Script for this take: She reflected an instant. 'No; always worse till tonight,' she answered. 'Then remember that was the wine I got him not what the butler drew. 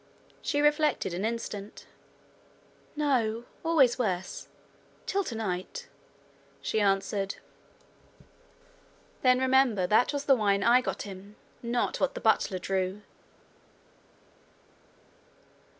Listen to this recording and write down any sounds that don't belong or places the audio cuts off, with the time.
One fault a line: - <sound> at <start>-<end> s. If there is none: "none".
none